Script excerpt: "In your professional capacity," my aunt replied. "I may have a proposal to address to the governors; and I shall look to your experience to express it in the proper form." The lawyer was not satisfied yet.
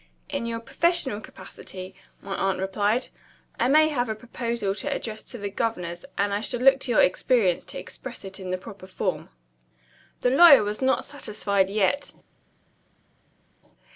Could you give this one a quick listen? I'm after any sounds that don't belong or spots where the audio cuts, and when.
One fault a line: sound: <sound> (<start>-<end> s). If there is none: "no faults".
no faults